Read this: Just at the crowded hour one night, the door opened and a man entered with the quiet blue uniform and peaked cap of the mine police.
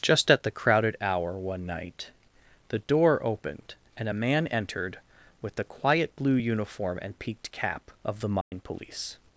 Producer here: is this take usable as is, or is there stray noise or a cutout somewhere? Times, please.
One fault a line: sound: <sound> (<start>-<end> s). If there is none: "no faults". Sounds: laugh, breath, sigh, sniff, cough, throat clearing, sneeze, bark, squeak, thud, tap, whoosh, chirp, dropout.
sound: dropout (8.4-8.5 s)